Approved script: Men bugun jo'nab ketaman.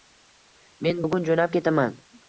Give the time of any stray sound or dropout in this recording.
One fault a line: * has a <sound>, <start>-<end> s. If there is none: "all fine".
all fine